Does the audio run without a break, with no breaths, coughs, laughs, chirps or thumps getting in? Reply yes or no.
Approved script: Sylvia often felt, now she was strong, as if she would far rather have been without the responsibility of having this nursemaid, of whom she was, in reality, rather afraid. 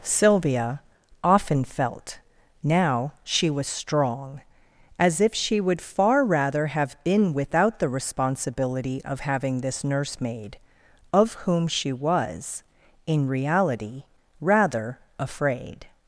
yes